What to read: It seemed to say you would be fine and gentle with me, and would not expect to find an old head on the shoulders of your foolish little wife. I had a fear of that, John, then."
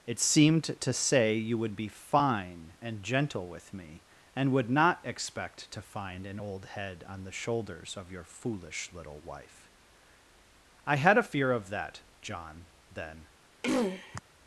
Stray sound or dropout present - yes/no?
yes